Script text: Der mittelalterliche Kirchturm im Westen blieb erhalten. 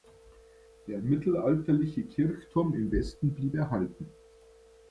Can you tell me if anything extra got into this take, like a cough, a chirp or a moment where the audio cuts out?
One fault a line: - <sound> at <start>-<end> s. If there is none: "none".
none